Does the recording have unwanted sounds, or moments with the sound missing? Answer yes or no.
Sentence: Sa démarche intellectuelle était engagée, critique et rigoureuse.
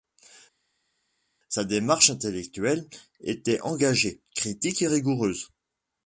no